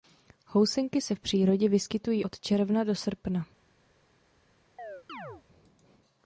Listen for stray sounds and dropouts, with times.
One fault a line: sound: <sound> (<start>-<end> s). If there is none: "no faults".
sound: chirp (4.8-5.4 s)